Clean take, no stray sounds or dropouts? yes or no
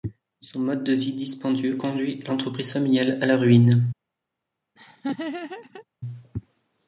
no